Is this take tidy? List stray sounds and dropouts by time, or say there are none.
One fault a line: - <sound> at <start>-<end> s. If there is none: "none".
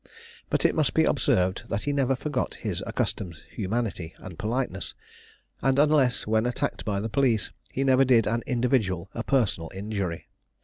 none